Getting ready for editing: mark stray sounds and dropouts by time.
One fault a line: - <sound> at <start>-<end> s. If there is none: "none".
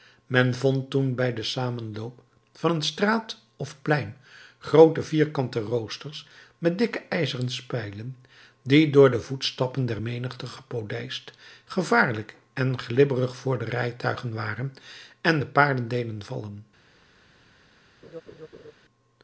- laugh at 18.0-18.7 s